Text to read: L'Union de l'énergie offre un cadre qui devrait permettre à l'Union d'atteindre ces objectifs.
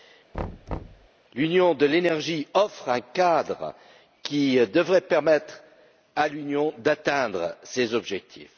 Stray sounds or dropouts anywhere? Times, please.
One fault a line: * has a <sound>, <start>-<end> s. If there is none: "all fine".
* has a thud, 0.3-1.1 s